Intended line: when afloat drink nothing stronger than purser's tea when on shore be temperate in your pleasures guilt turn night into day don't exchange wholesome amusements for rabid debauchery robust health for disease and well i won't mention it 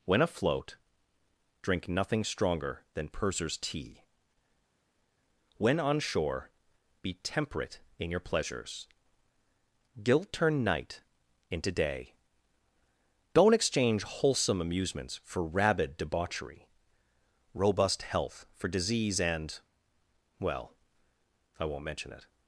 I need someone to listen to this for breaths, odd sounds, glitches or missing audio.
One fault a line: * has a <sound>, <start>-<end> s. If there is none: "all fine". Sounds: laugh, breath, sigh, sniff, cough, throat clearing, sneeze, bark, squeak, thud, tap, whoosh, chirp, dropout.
all fine